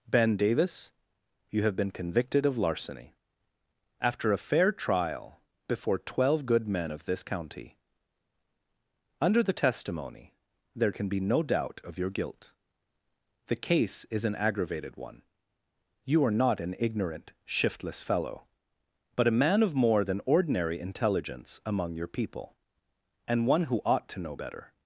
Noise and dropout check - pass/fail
pass